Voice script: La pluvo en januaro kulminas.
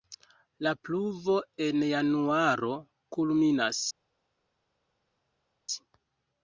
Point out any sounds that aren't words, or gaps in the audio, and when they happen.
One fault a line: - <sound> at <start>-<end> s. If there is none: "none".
none